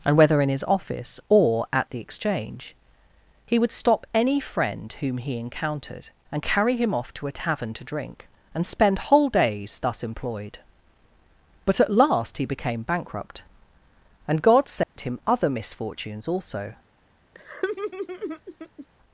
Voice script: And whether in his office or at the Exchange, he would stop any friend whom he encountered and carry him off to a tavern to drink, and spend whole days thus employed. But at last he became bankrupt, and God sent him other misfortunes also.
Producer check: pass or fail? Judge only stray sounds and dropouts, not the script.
fail